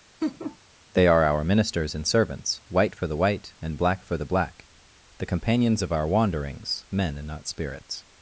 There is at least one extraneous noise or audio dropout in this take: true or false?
true